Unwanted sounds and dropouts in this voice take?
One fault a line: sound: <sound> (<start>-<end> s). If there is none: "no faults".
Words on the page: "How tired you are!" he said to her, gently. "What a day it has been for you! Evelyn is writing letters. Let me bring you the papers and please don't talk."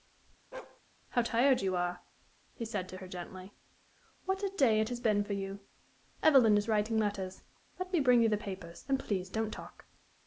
sound: bark (0.5-0.8 s)